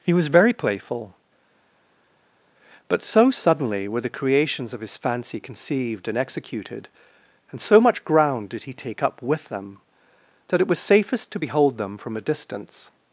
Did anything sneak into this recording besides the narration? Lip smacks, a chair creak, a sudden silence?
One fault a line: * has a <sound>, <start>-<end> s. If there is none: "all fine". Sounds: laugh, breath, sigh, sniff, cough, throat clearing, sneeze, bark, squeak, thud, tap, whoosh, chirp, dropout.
all fine